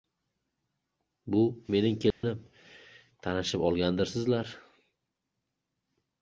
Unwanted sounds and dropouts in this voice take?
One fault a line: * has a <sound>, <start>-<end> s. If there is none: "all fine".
* has a dropout, 2.1-2.2 s